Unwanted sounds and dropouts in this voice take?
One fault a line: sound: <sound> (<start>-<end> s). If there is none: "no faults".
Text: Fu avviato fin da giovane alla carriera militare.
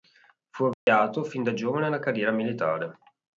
sound: dropout (0.7-0.9 s)